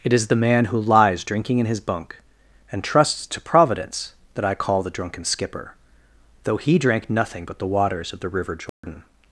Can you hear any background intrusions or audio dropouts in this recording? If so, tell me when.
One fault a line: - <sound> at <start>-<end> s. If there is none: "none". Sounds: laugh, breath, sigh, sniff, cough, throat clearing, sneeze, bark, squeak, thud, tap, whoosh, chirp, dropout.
- dropout at 8.7-8.8 s